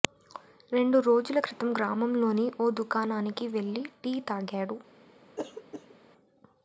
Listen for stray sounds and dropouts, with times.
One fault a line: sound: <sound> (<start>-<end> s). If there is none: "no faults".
sound: throat clearing (5.4-6.0 s)